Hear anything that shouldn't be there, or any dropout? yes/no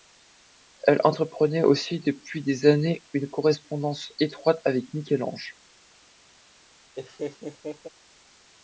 yes